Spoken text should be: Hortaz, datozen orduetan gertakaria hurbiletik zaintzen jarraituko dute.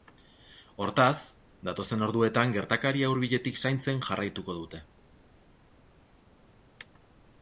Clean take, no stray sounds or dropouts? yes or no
yes